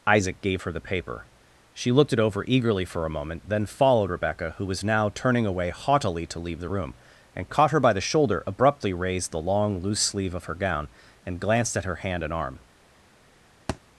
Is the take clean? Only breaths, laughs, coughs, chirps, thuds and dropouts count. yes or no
no